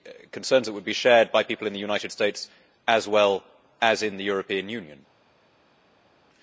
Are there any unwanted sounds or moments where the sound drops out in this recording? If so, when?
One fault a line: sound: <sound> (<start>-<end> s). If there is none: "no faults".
no faults